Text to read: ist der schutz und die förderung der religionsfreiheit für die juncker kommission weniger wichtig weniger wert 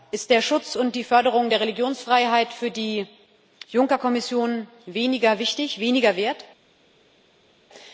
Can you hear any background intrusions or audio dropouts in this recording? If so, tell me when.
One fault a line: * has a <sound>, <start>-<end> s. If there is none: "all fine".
all fine